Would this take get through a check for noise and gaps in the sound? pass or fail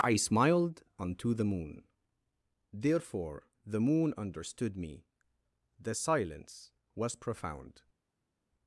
pass